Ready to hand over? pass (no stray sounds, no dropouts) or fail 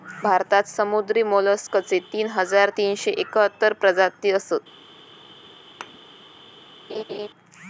fail